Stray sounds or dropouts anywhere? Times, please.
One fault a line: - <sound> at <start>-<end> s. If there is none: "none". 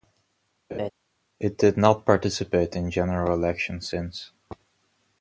- laugh at 0.7-0.9 s